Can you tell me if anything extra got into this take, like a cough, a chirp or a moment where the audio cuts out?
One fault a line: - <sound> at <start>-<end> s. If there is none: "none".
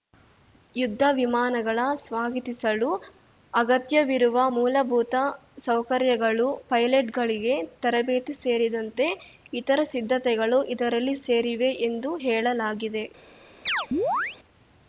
- chirp at 13.7-14.4 s